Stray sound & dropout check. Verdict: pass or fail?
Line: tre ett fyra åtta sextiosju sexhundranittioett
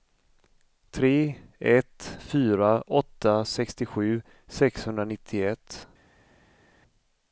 pass